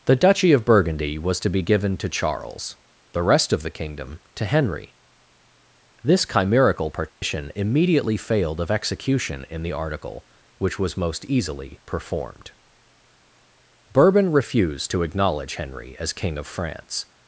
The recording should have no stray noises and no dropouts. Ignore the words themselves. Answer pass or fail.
fail